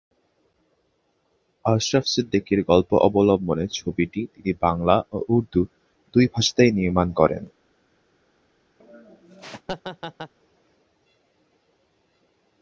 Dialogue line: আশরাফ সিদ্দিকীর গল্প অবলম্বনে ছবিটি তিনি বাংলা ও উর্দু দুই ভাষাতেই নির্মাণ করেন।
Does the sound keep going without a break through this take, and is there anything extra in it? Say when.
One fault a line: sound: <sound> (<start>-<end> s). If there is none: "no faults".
sound: laugh (8.8-10.3 s)